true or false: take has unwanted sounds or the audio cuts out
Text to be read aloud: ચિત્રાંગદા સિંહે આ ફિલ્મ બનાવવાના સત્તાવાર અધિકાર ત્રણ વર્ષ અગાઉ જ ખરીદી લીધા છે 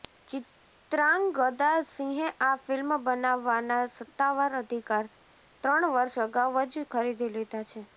false